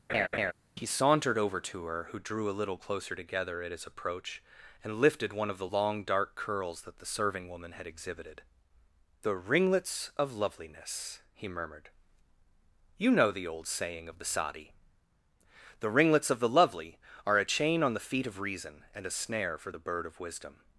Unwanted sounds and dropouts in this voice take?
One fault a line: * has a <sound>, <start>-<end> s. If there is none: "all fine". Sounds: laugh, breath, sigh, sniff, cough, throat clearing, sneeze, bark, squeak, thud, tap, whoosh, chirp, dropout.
* has a laugh, 0.1-0.5 s